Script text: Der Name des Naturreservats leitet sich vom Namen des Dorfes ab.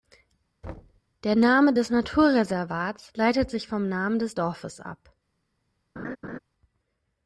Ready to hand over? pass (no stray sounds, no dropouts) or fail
fail